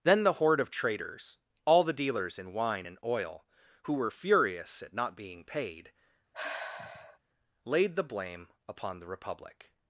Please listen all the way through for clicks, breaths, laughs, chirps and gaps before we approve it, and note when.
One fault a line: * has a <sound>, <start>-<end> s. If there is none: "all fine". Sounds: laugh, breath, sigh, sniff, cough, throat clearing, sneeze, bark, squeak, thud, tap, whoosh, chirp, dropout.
* has a sigh, 6.3-7.2 s